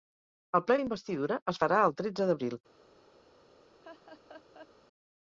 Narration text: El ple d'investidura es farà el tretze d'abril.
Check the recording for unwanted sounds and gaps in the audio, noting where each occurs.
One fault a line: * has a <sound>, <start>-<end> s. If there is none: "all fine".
* has a laugh, 3.8-4.7 s